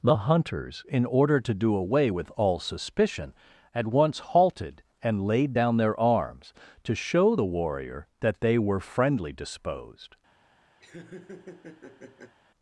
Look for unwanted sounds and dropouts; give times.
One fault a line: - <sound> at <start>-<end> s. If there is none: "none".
- laugh at 10.8-12.3 s